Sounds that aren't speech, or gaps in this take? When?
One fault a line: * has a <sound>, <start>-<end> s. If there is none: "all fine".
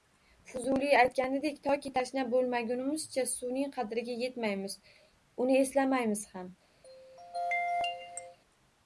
* has a throat clearing, 6.8-8.4 s